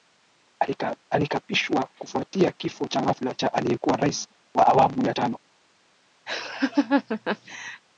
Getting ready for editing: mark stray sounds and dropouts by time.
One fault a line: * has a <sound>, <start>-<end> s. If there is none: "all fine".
* has a laugh, 6.3-7.8 s